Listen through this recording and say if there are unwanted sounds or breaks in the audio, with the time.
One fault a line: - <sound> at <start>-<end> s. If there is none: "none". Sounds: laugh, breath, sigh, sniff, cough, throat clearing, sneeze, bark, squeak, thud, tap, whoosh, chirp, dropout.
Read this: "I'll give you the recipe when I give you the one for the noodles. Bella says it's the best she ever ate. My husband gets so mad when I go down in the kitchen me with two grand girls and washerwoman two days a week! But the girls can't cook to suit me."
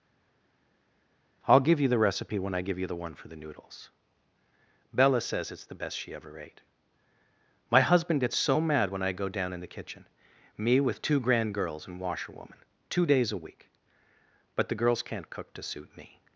none